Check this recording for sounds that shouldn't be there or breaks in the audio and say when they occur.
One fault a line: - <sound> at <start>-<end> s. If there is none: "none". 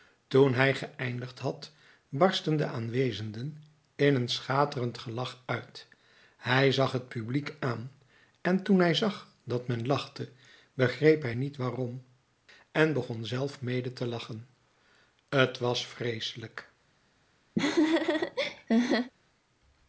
- laugh at 17.6-19.1 s